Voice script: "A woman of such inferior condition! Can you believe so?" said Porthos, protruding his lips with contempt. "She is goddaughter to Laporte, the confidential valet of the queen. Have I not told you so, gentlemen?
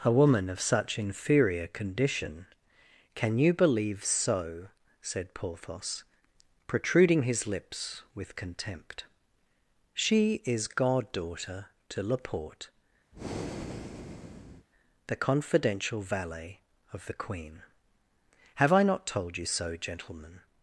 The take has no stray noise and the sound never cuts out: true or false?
false